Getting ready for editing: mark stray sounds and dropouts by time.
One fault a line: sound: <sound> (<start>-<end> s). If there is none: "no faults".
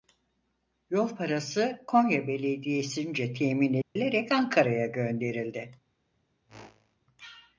sound: dropout (3.8-4.0 s)
sound: whoosh (6.5-7.0 s)